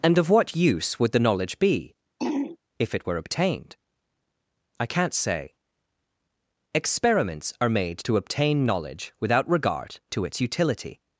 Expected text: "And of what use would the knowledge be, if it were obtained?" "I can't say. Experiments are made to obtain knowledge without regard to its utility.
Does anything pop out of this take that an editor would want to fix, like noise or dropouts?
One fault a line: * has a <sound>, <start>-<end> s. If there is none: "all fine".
* has a throat clearing, 2.2-2.6 s